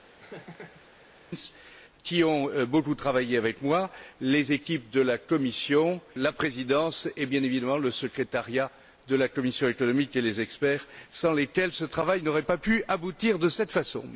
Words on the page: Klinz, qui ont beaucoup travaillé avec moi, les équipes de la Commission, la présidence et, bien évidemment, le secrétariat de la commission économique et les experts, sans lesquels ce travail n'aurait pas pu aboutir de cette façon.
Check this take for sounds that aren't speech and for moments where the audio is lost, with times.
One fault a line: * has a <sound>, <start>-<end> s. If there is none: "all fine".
* has a laugh, 0.2-0.8 s